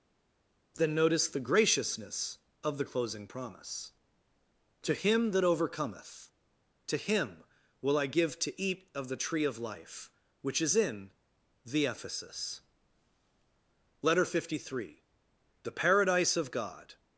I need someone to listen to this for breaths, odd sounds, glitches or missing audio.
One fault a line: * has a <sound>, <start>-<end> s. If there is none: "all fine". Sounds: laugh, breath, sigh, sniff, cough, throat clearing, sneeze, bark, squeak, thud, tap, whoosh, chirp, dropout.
all fine